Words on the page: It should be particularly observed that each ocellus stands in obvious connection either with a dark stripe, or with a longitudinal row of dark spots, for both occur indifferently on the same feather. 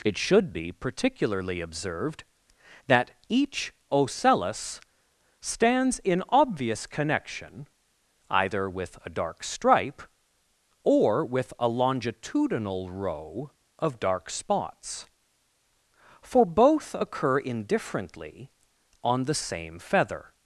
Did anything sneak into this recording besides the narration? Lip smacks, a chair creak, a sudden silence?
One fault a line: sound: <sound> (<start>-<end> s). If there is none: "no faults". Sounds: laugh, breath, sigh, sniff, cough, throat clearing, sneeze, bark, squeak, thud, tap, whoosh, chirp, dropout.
no faults